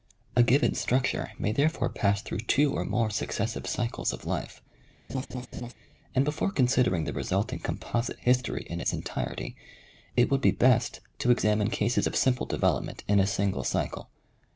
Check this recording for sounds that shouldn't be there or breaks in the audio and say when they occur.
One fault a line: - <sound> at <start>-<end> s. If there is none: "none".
- laugh at 5.1-5.7 s